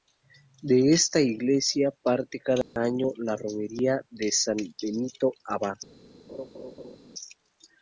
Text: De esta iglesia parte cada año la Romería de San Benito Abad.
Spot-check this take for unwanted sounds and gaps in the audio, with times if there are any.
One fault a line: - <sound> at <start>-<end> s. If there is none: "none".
- dropout at 2.6-2.8 s
- laugh at 6.3-7.0 s